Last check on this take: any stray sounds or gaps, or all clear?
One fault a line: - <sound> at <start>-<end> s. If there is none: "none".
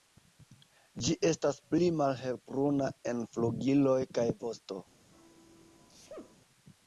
- sneeze at 5.1-6.4 s